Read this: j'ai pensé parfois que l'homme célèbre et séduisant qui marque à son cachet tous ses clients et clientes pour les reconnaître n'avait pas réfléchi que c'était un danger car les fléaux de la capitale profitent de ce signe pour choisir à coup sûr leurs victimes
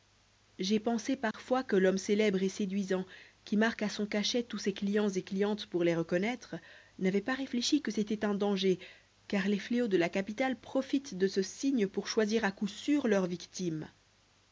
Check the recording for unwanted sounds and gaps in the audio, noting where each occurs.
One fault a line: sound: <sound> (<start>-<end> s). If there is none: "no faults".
sound: dropout (1.3-1.3 s)